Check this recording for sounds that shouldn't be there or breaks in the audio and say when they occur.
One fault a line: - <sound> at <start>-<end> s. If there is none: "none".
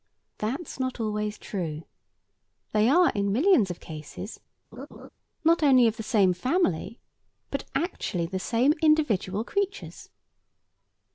- laugh at 4.7-5.1 s